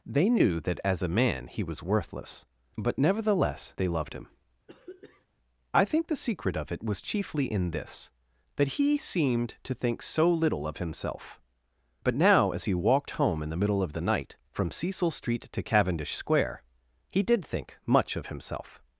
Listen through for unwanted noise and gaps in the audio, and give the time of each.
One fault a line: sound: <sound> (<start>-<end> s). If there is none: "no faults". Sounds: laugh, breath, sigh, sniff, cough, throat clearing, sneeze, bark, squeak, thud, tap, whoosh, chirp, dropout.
sound: throat clearing (4.7-5.3 s)